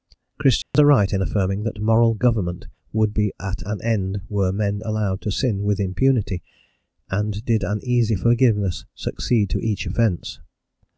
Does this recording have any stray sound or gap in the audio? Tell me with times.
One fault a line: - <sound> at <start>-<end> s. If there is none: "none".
- dropout at 0.6-0.7 s